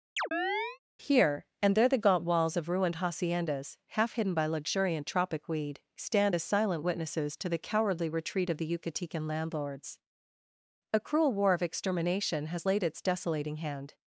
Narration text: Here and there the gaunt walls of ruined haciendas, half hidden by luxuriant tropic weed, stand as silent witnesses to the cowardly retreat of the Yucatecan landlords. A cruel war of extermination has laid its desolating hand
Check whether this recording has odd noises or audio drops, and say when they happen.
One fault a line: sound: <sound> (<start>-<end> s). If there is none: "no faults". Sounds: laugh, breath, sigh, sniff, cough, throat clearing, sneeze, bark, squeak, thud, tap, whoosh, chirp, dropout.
sound: chirp (0.2-0.8 s)